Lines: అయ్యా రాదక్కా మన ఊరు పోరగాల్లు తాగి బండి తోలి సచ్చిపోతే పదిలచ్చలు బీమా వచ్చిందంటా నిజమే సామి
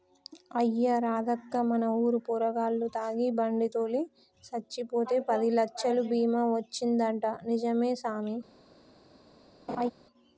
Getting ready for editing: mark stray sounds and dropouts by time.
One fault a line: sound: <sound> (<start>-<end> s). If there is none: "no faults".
sound: laugh (9.7-9.9 s)